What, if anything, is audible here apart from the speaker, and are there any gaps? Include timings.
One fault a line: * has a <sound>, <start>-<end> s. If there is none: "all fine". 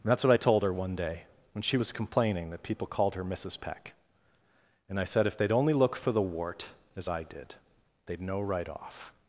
all fine